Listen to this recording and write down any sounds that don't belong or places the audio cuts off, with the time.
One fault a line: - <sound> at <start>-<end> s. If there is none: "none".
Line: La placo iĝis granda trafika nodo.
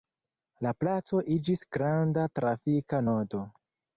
none